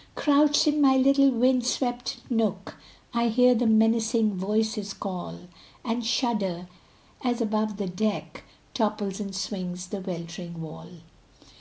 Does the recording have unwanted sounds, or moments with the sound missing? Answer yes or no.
no